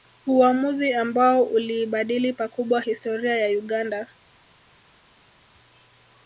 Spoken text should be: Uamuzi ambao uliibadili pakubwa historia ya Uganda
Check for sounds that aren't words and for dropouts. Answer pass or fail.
pass